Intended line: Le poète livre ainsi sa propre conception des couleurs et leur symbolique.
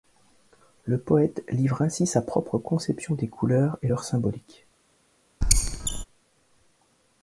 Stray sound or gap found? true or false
true